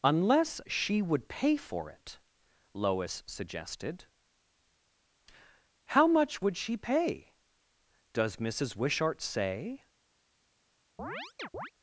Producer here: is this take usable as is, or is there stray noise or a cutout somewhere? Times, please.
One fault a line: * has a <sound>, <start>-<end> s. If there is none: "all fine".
* has a chirp, 11.0-11.7 s